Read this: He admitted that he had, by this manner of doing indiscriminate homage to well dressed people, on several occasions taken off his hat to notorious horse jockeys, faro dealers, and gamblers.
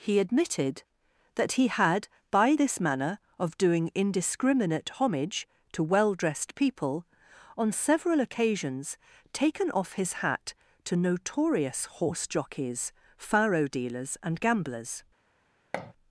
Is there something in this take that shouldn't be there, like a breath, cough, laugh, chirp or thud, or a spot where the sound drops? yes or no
yes